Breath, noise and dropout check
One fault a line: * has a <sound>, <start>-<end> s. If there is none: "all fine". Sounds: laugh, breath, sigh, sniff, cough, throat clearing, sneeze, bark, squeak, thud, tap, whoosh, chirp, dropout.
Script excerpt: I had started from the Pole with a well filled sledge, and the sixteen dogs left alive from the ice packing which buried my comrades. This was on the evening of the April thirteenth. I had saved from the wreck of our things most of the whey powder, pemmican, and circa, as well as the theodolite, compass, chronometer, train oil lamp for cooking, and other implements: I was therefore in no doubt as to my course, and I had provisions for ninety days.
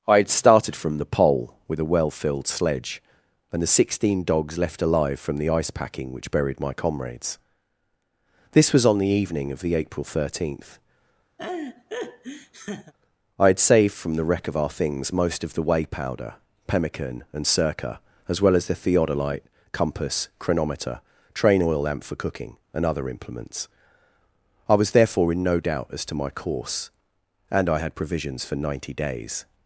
* has a laugh, 11.4-12.9 s